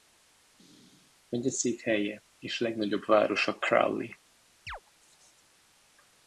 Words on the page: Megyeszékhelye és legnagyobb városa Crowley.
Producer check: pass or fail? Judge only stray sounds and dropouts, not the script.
fail